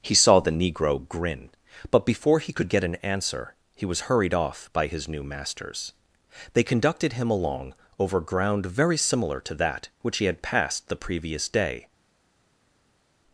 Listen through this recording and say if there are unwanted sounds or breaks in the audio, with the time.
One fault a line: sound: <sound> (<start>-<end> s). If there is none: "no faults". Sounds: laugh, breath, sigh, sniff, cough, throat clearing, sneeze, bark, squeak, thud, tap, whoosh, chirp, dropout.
no faults